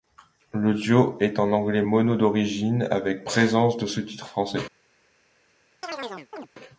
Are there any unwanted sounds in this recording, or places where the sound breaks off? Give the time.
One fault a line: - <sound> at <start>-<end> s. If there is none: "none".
- chirp at 5.8-6.5 s